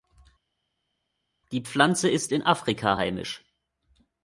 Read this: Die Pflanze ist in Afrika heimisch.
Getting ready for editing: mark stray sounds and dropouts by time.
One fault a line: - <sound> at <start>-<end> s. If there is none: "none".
none